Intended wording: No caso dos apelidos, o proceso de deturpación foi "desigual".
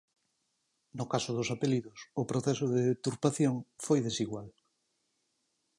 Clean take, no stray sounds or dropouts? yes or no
yes